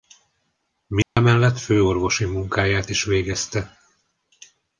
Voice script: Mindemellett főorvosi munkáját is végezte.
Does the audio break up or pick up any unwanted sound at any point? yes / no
yes